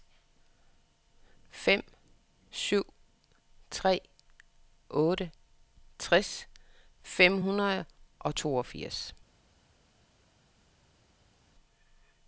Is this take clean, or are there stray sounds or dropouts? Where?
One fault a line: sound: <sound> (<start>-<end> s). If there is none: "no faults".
no faults